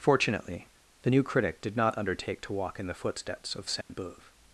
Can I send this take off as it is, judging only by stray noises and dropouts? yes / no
no